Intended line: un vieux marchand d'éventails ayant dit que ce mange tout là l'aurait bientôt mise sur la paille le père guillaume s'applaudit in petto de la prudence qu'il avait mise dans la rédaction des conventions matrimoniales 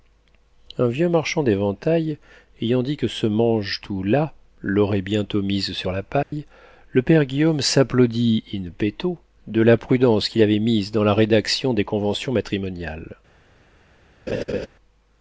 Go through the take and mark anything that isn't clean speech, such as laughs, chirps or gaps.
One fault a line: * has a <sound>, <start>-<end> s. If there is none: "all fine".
* has a dropout, 6.2-6.3 s
* has a laugh, 14.3-14.7 s